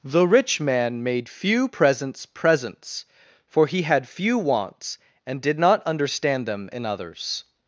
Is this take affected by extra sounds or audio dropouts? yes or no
no